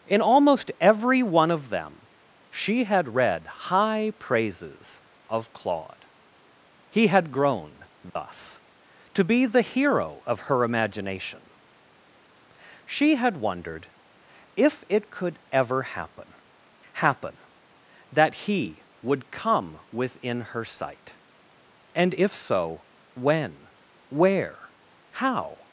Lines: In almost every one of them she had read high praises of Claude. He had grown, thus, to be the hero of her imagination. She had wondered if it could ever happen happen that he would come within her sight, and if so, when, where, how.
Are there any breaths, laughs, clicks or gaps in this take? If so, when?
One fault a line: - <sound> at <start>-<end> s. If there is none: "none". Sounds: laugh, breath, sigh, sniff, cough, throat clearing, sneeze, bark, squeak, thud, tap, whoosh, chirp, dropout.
- dropout at 8.1-8.2 s